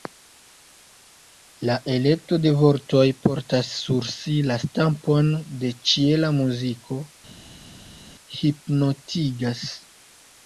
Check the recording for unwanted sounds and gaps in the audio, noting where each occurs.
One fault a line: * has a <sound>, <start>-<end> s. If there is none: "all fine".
all fine